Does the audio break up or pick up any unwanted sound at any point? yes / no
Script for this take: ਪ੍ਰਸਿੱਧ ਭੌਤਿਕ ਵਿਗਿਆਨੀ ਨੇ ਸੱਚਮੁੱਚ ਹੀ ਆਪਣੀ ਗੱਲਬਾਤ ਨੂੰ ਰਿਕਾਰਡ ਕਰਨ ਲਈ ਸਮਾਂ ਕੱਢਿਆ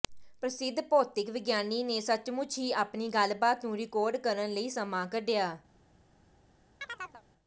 yes